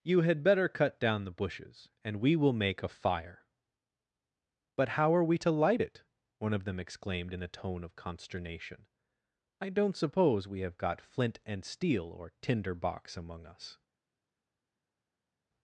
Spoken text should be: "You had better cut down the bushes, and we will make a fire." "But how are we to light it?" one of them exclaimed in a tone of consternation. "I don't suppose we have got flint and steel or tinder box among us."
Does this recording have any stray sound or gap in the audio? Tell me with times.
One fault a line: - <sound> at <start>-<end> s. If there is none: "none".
none